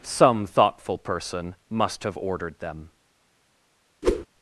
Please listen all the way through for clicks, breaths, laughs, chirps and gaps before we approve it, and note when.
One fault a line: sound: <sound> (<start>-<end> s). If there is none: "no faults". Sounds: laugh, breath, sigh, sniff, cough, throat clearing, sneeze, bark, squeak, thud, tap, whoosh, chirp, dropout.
sound: whoosh (4.0-4.3 s)